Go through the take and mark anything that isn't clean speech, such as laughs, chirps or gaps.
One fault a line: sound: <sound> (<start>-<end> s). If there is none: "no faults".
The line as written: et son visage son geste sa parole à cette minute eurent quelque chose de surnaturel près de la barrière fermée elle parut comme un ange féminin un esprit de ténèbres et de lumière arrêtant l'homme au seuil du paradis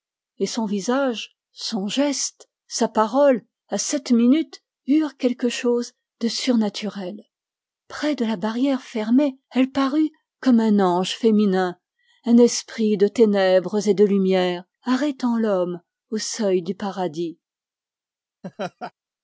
sound: laugh (18.4-18.9 s)